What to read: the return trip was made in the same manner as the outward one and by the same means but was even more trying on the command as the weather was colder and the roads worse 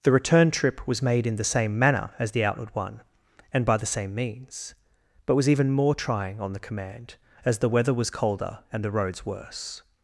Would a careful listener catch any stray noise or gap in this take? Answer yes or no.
no